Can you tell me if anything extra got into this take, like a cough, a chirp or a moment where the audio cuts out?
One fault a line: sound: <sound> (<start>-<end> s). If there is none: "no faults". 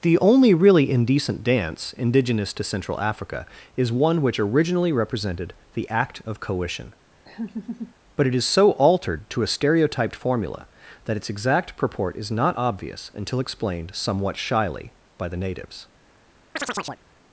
sound: laugh (7.2-7.9 s)
sound: chirp (16.6-17.0 s)